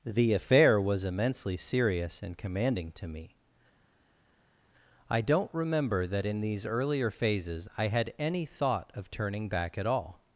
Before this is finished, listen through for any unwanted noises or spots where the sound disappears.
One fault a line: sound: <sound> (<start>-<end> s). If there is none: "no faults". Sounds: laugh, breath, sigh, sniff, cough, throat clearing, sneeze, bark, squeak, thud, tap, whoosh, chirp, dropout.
no faults